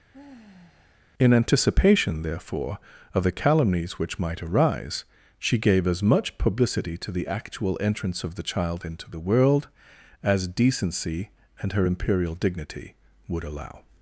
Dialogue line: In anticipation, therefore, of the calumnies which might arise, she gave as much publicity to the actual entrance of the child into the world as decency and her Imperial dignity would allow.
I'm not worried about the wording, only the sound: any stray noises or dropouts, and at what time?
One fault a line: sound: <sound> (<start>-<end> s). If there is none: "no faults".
sound: sigh (0.1-1.0 s)